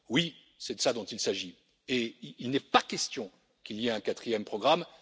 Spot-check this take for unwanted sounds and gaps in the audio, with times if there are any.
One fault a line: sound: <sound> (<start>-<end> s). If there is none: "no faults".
no faults